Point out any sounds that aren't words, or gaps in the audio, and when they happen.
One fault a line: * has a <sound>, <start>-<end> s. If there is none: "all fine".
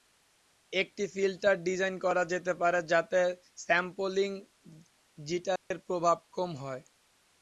* has a dropout, 5.6-5.7 s